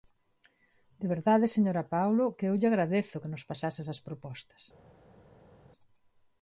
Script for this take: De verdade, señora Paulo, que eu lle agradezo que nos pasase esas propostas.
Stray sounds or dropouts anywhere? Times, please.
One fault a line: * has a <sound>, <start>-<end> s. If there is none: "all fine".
all fine